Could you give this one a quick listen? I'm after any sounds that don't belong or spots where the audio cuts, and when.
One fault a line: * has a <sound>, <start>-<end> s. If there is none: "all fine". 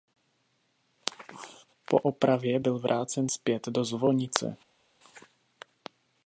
all fine